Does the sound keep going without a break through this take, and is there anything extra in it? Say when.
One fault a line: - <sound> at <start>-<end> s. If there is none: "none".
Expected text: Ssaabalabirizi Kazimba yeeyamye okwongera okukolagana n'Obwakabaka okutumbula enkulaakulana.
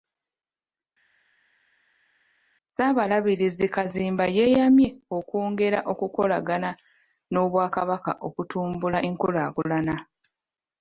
none